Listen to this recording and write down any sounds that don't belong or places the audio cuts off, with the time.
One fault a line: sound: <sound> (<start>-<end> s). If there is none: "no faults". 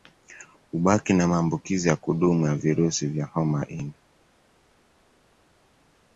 no faults